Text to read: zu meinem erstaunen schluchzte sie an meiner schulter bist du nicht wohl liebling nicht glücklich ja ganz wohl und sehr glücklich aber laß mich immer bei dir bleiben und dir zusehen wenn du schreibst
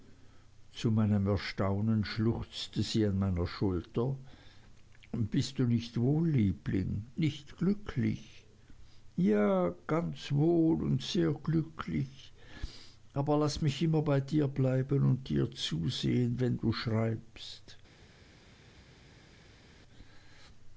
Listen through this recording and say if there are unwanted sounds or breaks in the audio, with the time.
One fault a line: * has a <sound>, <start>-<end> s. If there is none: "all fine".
all fine